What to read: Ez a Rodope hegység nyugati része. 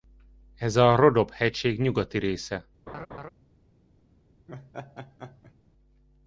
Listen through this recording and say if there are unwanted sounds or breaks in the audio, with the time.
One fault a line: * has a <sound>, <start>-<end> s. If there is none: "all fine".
* has a laugh, 2.9-3.3 s
* has a laugh, 4.5-5.5 s